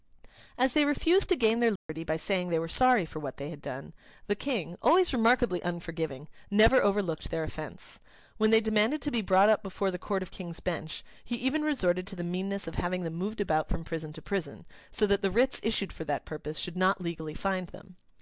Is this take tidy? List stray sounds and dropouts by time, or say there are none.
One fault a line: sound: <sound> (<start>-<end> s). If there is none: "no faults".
sound: dropout (1.8-1.9 s)